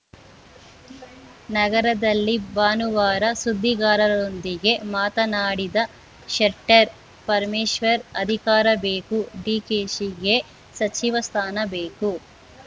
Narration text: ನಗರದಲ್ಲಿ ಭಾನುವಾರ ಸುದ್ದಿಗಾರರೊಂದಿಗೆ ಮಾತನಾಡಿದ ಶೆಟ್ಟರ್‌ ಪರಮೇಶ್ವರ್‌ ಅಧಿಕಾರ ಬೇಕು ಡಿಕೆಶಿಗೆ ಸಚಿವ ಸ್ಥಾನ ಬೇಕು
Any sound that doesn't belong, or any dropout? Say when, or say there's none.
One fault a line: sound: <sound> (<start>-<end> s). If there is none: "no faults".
no faults